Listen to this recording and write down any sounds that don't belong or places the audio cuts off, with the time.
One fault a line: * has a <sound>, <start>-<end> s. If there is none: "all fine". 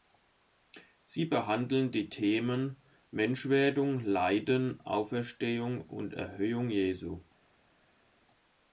all fine